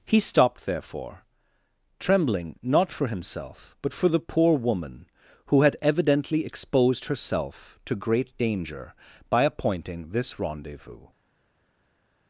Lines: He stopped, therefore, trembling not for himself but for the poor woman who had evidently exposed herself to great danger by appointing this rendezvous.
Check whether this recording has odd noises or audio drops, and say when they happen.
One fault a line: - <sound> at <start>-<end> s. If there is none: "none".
none